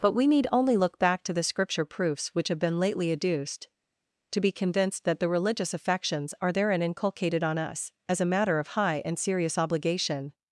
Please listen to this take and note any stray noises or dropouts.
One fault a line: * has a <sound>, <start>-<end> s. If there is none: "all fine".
all fine